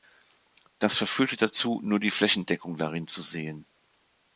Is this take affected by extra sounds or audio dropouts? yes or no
no